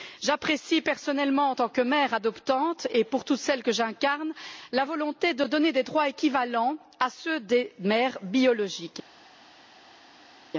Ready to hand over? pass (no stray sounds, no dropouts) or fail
pass